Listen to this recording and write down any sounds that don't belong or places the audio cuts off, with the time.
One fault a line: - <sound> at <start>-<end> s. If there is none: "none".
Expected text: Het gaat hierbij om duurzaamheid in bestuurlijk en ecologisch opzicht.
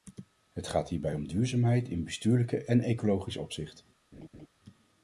- laugh at 4.1-4.5 s